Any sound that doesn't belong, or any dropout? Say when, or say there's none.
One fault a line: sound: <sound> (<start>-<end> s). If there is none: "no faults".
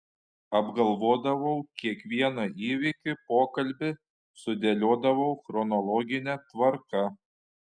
no faults